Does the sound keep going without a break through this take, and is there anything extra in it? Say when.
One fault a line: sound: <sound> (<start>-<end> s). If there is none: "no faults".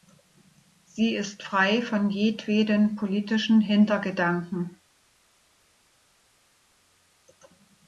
no faults